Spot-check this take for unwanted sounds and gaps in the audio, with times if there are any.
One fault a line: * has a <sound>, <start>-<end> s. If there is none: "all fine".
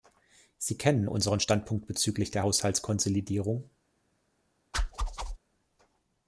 * has a whoosh, 4.7-5.4 s